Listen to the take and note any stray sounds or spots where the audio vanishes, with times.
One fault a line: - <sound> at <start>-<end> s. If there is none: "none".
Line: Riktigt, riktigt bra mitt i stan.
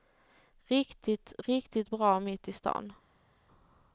none